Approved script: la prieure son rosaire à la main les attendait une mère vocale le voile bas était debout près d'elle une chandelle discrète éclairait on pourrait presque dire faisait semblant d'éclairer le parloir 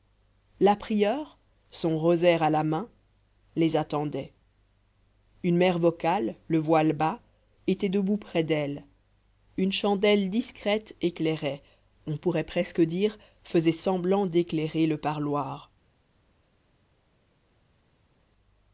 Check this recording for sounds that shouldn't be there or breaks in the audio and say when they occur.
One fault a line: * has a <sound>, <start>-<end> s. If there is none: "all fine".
all fine